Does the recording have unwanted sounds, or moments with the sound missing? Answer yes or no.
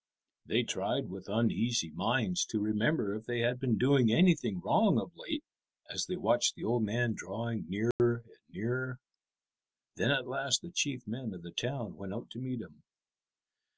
yes